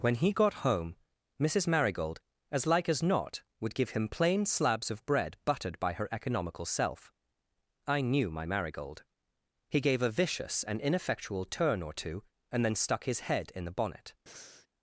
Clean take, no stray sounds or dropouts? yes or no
no